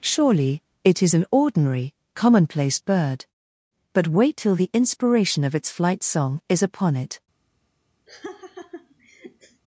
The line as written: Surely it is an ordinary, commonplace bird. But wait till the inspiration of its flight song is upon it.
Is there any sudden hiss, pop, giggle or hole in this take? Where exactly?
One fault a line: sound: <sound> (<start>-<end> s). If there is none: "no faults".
sound: laugh (8.1-9.6 s)